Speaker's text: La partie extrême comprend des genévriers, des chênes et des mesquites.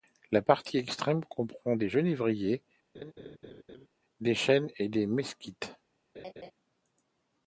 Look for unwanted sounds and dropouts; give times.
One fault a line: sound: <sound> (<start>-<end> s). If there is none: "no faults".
sound: laugh (2.9-3.9 s)
sound: laugh (6.1-6.5 s)